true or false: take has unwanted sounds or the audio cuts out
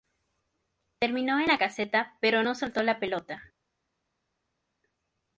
false